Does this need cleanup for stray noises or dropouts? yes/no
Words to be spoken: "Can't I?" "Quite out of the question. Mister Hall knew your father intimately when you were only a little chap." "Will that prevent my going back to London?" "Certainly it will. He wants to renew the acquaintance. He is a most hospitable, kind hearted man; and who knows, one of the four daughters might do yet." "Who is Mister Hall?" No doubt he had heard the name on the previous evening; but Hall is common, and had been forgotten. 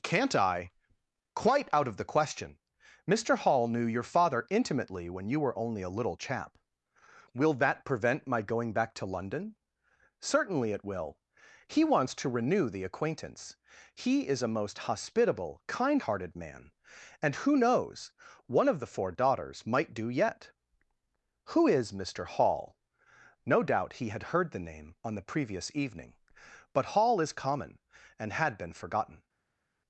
no